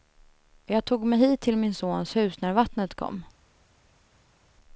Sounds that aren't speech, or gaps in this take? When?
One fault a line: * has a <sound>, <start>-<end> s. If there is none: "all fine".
all fine